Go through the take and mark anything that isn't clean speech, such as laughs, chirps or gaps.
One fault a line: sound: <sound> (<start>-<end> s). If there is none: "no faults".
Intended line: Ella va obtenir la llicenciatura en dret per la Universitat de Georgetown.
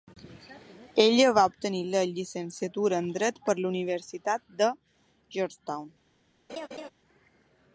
sound: laugh (6.5-6.9 s)